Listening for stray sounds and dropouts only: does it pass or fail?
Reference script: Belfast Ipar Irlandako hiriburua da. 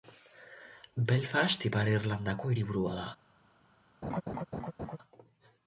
fail